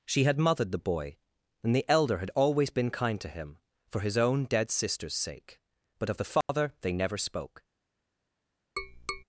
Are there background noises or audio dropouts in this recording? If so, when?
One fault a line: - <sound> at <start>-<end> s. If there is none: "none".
- dropout at 6.4-6.5 s
- tap at 8.8-9.2 s